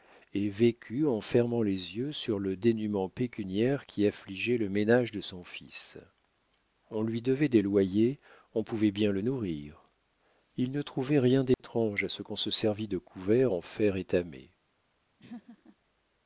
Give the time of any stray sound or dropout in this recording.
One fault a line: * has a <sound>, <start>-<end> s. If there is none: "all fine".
* has a dropout, 11.5-11.6 s
* has a laugh, 15.2-15.8 s